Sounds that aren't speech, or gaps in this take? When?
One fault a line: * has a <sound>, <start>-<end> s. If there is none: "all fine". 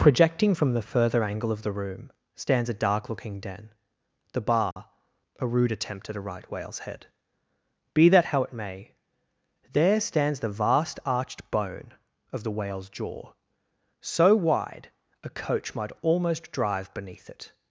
* has a dropout, 4.7-4.8 s